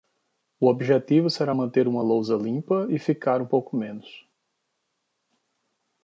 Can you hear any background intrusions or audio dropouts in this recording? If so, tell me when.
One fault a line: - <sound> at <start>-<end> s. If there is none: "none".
none